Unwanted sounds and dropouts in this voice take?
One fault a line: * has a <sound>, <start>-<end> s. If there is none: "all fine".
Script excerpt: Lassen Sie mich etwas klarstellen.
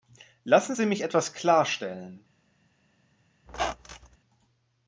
* has a squeak, 3.5-4.2 s